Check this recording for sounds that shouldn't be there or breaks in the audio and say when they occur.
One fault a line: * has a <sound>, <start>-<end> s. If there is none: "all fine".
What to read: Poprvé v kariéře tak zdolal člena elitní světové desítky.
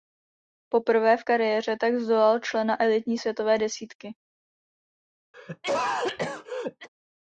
* has a cough, 5.3-6.9 s